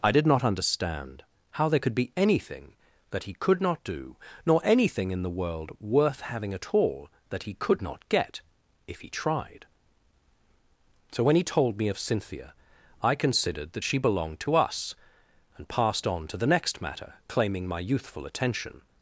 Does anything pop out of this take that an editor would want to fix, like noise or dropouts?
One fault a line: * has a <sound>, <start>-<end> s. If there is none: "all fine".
all fine